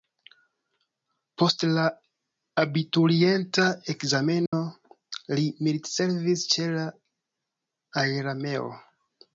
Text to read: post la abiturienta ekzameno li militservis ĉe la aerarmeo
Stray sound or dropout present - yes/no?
yes